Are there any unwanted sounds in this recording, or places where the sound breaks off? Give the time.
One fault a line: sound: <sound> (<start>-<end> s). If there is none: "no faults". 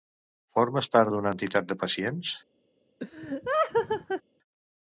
sound: laugh (3.0-4.2 s)